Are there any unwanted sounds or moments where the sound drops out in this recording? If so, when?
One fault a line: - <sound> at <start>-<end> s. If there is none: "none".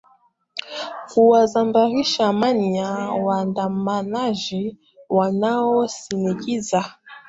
none